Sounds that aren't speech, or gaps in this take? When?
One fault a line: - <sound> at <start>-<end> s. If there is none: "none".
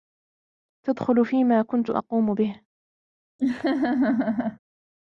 - laugh at 3.4-4.6 s